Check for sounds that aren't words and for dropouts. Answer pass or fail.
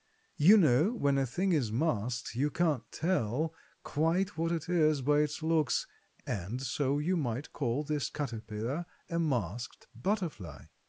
pass